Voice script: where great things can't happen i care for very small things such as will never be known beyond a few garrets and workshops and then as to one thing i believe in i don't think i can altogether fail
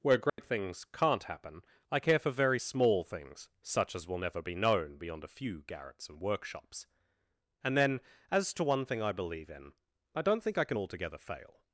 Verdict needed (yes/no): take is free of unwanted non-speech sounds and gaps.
no